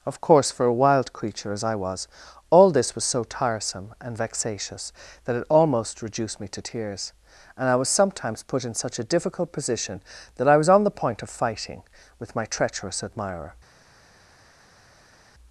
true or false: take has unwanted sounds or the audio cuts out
false